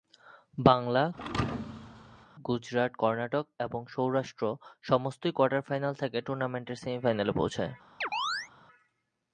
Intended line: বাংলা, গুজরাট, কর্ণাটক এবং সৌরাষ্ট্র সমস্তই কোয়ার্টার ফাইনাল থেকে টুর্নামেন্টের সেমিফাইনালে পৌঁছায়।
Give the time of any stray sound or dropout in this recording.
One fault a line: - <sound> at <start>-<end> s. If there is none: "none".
- thud at 1.1-2.3 s
- chirp at 8.0-8.5 s